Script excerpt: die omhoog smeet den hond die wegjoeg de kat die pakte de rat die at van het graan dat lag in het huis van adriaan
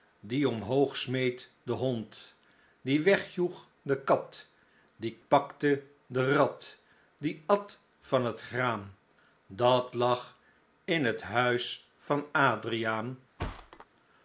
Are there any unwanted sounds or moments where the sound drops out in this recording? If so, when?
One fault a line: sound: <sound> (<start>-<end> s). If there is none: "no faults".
sound: thud (13.4-13.9 s)